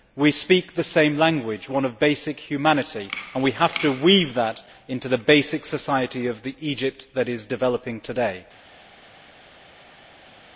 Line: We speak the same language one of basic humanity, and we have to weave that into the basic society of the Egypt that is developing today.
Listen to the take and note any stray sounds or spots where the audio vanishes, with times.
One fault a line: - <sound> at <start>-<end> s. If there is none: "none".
none